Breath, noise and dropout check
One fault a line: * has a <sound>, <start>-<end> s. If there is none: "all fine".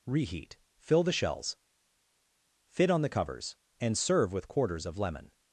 all fine